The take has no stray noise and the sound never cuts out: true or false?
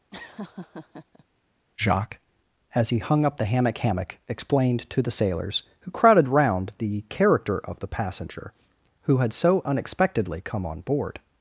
false